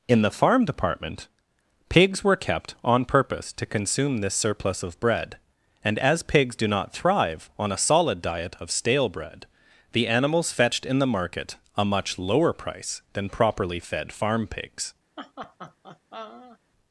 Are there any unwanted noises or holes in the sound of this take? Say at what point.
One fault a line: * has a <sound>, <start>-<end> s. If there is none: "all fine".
* has a laugh, 15.2-16.6 s